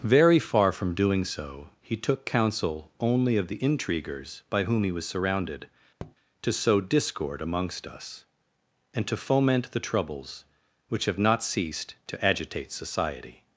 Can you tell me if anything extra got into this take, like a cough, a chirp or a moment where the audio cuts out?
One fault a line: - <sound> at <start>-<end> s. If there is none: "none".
- tap at 6.0-6.2 s